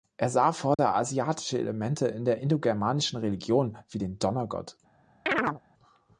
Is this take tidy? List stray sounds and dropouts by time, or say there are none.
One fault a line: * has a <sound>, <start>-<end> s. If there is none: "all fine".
* has a dropout, 0.7-0.8 s
* has a chirp, 5.3-5.6 s